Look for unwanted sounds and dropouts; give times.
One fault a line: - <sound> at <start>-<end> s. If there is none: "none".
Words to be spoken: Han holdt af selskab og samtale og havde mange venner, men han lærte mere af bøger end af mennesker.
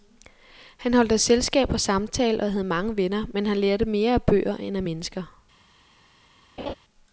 - laugh at 6.6-6.7 s